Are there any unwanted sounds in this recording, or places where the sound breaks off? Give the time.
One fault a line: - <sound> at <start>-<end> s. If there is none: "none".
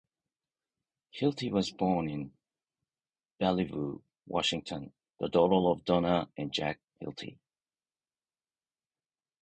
none